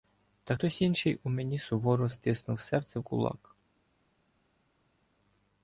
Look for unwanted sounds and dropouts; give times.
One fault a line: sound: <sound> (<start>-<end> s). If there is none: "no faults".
no faults